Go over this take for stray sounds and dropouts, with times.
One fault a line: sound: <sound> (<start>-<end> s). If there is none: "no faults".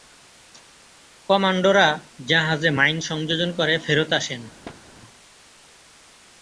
sound: thud (4.6-4.8 s)